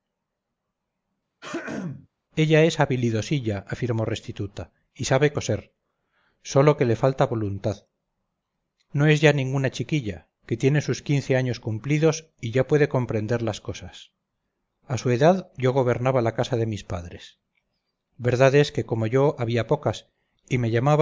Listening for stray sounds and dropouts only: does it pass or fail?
fail